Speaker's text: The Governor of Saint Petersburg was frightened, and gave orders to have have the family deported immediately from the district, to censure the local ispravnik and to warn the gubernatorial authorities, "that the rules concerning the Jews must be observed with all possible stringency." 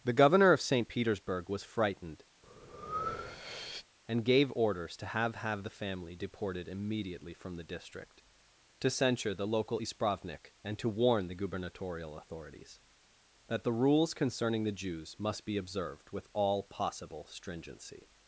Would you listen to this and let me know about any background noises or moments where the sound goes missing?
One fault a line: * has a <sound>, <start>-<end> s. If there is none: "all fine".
* has a breath, 2.4-3.9 s